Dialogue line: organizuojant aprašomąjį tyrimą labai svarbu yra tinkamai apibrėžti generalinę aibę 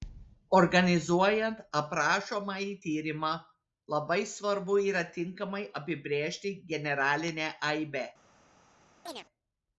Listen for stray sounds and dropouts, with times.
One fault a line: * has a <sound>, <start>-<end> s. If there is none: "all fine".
* has a chirp, 9.1-9.3 s